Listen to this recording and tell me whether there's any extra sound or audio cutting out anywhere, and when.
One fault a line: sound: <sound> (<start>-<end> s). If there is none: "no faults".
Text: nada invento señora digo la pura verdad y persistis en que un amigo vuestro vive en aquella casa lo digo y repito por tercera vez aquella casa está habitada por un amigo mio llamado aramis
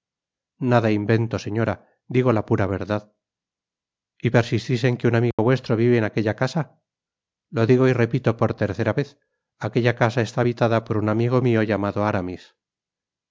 sound: dropout (5.3-5.4 s)